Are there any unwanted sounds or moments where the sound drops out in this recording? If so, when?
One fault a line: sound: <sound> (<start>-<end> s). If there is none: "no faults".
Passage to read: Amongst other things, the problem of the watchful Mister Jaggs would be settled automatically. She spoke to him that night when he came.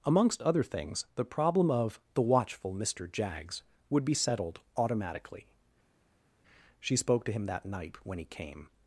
no faults